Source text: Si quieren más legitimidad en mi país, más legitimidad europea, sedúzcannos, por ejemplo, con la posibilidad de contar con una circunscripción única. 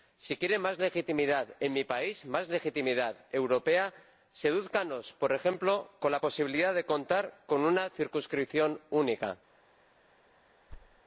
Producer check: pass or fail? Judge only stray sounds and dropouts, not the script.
fail